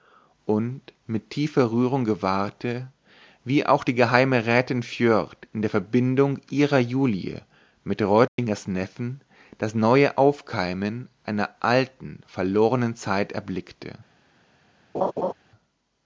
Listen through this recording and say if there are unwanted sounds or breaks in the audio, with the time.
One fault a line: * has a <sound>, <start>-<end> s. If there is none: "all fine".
* has a dropout, 8.3-8.4 s
* has a laugh, 14.9-15.3 s